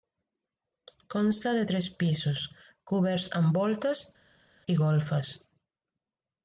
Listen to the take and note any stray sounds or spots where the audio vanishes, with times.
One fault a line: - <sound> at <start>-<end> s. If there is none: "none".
none